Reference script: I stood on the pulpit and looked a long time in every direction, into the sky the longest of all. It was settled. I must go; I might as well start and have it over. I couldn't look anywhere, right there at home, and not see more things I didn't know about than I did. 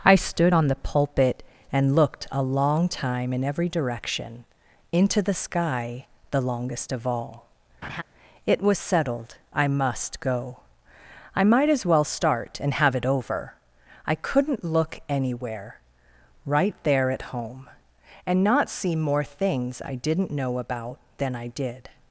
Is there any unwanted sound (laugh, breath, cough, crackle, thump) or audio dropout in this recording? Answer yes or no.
yes